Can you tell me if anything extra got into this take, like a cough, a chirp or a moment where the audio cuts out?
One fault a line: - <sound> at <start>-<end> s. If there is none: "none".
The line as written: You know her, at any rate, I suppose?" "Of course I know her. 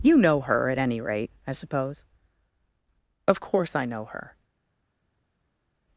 none